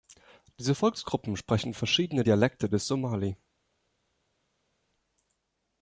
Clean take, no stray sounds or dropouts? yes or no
yes